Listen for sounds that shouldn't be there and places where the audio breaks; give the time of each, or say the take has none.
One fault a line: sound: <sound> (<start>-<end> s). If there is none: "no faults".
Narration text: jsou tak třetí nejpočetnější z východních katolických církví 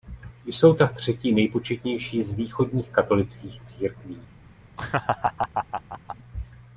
sound: laugh (4.8-6.2 s)